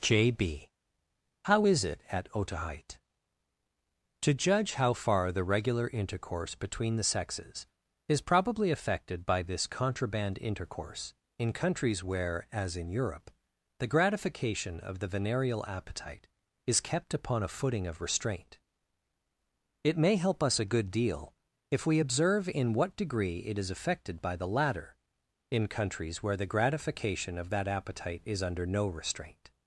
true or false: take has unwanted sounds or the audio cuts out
false